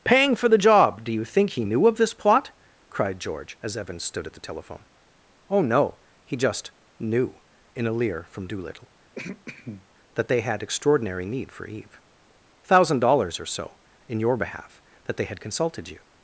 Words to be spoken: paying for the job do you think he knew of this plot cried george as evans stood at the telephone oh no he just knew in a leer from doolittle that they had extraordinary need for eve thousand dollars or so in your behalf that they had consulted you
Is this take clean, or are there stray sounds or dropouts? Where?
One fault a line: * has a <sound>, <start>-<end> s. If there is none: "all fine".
* has a throat clearing, 9.2-9.9 s